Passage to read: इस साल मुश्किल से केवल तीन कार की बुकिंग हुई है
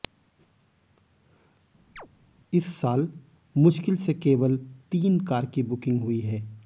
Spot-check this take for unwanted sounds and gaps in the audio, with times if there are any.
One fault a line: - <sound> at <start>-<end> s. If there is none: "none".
- chirp at 2.0-2.1 s